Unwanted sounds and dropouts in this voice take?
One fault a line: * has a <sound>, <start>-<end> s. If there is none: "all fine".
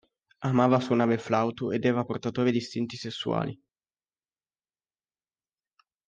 all fine